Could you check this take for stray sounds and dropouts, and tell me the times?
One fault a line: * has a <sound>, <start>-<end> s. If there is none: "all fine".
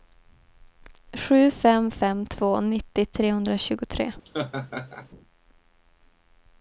* has a laugh, 4.2-5.1 s